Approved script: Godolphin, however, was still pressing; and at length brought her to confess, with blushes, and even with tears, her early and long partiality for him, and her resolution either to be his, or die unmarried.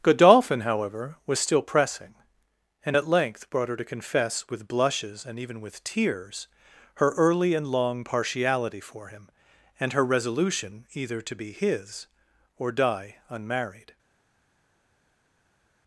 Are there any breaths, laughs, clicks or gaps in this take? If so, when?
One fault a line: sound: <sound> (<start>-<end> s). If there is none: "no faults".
no faults